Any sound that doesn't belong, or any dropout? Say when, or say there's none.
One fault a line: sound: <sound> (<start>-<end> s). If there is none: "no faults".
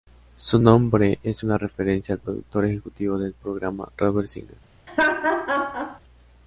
sound: laugh (4.9-6.0 s)